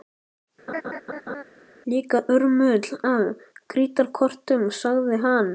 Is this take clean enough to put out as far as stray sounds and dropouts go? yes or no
no